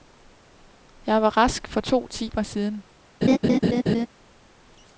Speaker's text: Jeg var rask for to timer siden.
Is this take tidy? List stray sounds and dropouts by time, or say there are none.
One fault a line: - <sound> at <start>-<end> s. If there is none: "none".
- laugh at 3.2-4.1 s